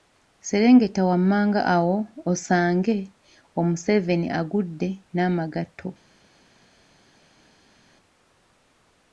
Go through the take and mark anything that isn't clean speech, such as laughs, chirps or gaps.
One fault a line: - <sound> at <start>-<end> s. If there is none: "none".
none